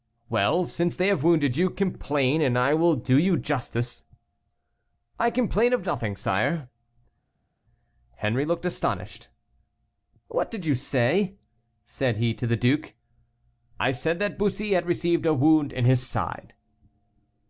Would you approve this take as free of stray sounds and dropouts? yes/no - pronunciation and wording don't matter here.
yes